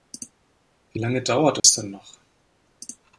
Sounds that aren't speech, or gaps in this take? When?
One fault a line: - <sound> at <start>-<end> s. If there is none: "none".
- dropout at 1.6-1.6 s